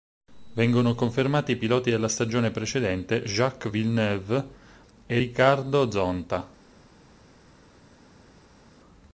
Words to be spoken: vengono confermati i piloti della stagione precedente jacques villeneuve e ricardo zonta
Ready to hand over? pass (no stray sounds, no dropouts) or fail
pass